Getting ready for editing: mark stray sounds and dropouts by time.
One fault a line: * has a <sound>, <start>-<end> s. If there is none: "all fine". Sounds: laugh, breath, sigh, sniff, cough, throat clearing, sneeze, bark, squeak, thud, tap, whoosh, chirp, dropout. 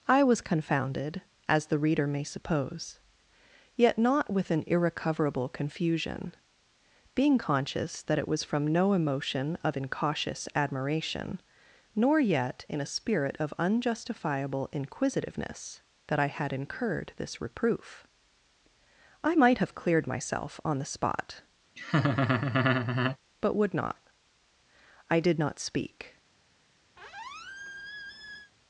* has a laugh, 21.8-23.2 s
* has a squeak, 27.0-28.5 s